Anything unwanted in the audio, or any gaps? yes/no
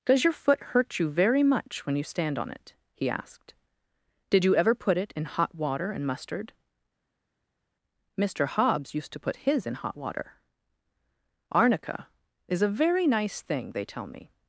no